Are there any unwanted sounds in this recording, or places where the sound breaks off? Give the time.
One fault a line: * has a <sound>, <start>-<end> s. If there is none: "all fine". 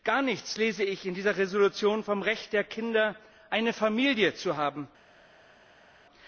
all fine